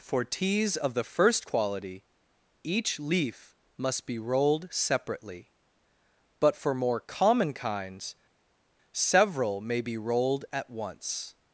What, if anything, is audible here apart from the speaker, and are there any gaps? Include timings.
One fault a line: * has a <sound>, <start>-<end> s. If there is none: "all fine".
all fine